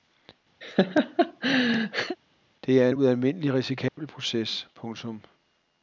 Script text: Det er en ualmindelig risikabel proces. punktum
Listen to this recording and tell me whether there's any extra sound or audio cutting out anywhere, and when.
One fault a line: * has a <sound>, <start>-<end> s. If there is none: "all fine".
* has a laugh, 0.6-2.2 s
* has a dropout, 3.9-4.0 s